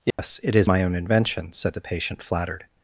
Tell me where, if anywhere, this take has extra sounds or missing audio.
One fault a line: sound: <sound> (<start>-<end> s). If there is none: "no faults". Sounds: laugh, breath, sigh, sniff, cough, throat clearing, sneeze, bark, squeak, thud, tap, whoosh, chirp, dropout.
sound: dropout (0.1-0.2 s)